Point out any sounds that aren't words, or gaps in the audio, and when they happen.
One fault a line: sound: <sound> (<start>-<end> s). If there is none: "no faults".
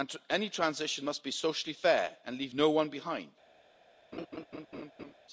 sound: laugh (4.1-5.1 s)